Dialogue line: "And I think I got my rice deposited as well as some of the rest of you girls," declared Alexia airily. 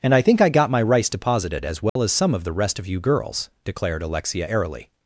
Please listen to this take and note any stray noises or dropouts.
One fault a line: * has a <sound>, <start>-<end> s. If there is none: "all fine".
* has a dropout, 1.9-2.0 s